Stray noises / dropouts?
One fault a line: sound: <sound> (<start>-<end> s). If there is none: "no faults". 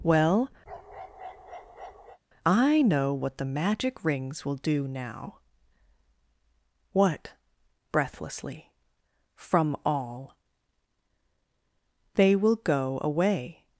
sound: bark (0.7-2.2 s)